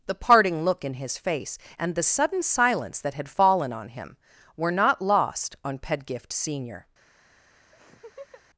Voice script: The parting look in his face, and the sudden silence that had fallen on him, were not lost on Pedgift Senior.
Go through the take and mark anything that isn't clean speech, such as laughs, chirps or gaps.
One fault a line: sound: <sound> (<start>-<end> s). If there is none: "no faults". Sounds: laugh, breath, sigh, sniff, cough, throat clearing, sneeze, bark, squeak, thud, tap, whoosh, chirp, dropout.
sound: laugh (7.7-8.4 s)